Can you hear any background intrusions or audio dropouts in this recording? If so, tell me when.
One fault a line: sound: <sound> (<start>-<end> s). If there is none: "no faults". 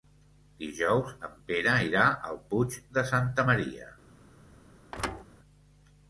sound: thud (4.9-5.2 s)